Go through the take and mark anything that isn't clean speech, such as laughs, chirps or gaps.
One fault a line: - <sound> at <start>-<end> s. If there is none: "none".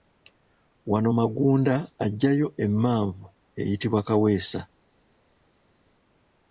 none